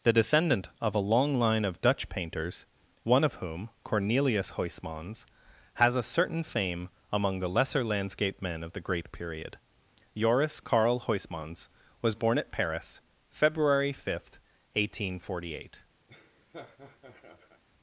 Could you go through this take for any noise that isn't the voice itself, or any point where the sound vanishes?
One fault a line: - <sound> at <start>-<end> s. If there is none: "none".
- laugh at 16.1-17.6 s